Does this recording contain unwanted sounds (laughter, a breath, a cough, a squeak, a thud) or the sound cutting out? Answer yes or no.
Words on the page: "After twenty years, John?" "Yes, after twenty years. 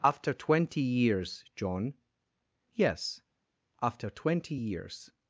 no